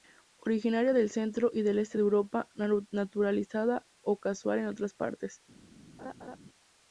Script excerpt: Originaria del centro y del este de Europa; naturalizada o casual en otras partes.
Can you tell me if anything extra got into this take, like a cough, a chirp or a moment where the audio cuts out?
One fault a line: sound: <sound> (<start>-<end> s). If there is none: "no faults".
sound: laugh (6.0-6.4 s)